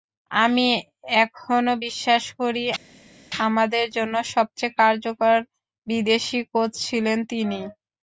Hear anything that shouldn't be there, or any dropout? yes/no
no